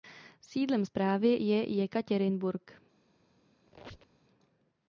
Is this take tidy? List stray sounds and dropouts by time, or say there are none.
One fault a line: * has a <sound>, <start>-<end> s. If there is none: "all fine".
* has a squeak, 3.7-4.3 s